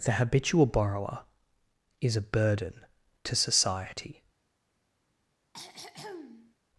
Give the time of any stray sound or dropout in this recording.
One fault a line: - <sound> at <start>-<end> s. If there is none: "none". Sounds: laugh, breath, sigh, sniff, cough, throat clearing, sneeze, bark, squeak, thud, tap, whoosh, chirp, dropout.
- throat clearing at 5.5-6.5 s